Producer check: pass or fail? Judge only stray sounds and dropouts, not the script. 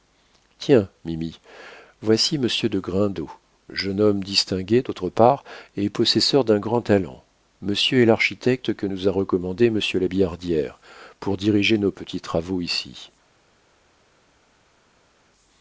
pass